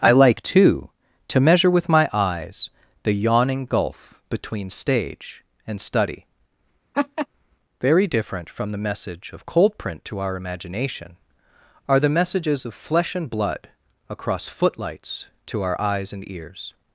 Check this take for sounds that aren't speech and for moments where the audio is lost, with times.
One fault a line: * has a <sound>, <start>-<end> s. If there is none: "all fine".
* has a laugh, 6.9-7.3 s